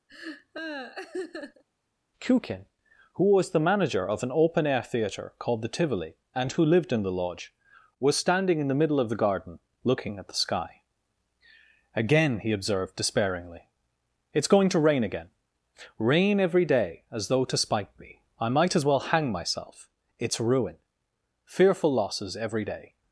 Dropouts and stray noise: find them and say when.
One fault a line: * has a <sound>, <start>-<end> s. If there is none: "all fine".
* has a laugh, 0.1-1.6 s